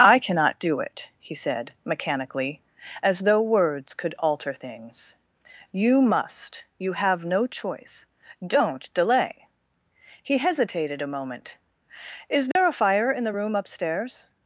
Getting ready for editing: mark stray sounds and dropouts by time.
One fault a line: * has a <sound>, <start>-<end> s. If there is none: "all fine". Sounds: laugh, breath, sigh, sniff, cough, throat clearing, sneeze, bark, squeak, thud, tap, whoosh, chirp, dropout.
* has a dropout, 12.5-12.6 s